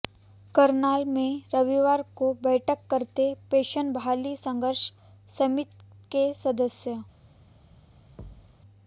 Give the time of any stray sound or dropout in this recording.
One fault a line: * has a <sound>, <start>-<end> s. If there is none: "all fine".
* has a thud, 8.2-8.6 s